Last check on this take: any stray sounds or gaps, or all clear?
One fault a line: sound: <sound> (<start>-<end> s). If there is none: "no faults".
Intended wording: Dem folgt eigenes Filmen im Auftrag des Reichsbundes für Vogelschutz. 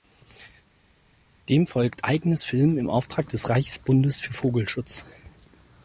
no faults